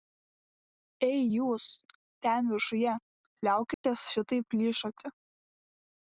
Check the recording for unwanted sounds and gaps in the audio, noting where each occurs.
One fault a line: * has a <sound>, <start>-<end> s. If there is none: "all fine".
* has a dropout, 3.7-3.8 s